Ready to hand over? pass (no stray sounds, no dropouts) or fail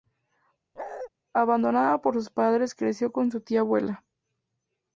fail